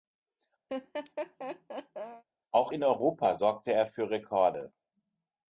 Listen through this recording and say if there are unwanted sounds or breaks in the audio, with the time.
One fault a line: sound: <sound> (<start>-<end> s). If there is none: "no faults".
sound: laugh (0.7-2.2 s)